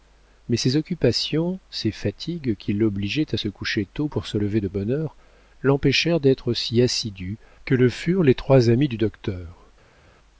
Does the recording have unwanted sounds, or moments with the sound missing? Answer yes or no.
no